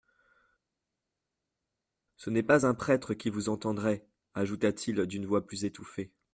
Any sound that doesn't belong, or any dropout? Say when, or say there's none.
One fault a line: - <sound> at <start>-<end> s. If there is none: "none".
none